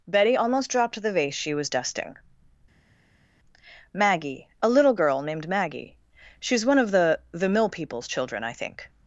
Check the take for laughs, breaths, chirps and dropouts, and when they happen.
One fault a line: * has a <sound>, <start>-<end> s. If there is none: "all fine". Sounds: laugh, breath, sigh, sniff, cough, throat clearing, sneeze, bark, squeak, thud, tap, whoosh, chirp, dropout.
all fine